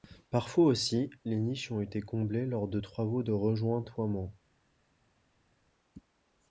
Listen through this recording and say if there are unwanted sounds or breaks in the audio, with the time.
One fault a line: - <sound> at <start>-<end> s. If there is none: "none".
none